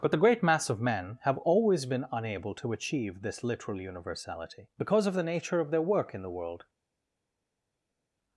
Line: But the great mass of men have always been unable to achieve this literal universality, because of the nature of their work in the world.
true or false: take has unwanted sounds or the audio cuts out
false